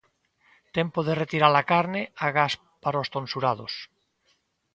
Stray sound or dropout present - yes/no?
no